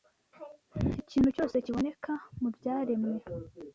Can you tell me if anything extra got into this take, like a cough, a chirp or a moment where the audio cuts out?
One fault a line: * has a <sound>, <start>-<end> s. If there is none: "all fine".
all fine